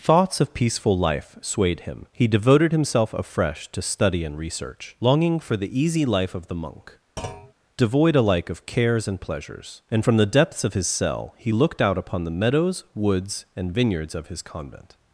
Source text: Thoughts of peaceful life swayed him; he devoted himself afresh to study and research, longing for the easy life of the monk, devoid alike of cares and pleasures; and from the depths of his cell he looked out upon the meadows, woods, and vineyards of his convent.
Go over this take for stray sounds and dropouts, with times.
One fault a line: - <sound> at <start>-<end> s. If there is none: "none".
- thud at 7.2-7.5 s